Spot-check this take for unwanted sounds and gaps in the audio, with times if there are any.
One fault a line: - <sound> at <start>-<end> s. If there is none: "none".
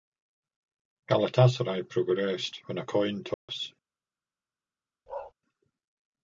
- dropout at 3.3-3.5 s
- bark at 5.1-5.3 s